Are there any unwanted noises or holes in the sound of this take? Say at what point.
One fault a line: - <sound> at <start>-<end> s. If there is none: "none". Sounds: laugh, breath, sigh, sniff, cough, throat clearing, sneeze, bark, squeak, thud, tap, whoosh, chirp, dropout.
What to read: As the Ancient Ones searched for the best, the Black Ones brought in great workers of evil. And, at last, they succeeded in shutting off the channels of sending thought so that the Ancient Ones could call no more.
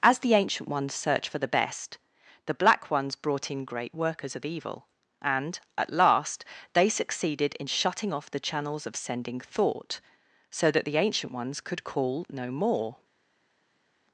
none